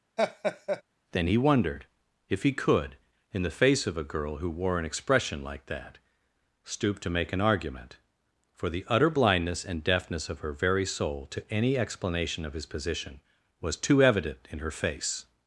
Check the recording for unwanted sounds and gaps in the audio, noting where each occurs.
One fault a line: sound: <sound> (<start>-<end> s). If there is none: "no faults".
sound: laugh (0.2-0.8 s)